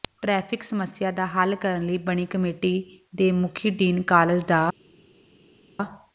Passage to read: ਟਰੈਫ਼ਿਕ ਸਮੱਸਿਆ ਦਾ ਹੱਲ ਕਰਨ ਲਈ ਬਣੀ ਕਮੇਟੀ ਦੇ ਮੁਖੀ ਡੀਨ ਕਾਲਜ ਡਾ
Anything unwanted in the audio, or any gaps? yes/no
no